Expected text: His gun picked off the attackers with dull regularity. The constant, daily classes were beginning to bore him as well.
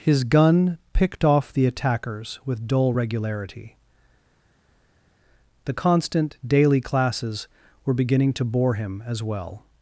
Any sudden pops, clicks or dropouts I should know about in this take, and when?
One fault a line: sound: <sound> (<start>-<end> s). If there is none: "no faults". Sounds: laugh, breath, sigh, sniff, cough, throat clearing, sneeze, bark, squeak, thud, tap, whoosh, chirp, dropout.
no faults